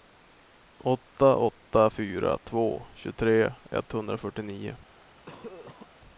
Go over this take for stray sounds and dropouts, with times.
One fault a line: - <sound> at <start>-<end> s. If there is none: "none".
- cough at 5.3-5.9 s